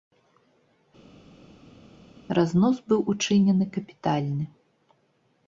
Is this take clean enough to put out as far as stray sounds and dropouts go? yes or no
yes